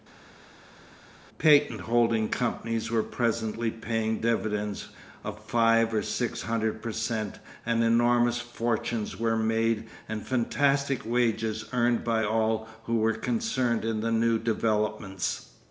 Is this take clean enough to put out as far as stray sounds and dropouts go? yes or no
yes